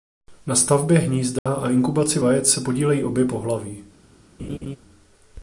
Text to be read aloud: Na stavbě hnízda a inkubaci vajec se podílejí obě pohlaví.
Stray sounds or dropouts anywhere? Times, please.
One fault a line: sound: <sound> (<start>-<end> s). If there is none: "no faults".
sound: dropout (1.4-1.5 s)
sound: laugh (4.4-4.8 s)